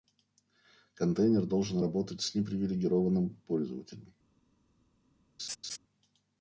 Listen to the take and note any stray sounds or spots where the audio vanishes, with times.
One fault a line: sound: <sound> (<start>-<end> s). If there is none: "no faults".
sound: laugh (5.4-5.8 s)